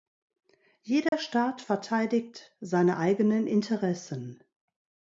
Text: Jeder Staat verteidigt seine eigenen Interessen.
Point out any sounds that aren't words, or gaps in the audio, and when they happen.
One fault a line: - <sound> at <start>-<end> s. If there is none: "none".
- dropout at 1.1-1.1 s